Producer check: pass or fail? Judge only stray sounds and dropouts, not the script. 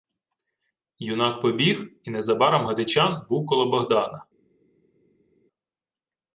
pass